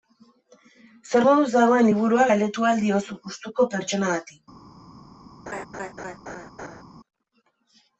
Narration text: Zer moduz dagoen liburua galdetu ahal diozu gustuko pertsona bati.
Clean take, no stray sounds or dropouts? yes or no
no